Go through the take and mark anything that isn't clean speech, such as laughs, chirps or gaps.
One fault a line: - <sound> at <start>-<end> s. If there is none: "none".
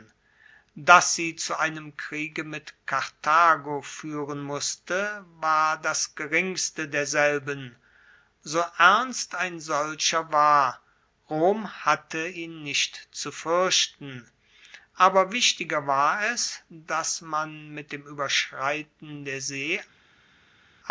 none